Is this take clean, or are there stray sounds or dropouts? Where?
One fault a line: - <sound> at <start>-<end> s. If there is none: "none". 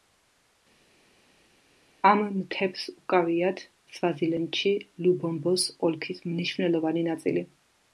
none